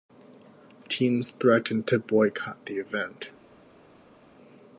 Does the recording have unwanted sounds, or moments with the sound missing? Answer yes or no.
no